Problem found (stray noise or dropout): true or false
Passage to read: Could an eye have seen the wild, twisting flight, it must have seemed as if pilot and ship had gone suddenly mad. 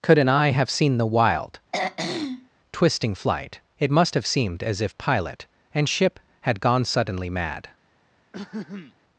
true